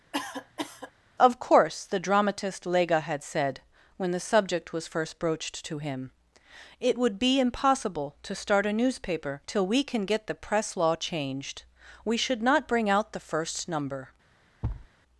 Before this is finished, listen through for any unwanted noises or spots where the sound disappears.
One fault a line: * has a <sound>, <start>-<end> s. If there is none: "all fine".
* has a cough, 0.1-0.9 s
* has a thud, 14.6-14.9 s